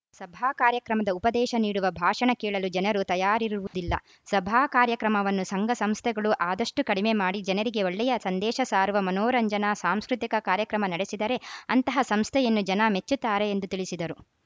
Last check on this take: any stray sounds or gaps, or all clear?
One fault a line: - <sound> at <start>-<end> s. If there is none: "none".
- dropout at 3.7-3.7 s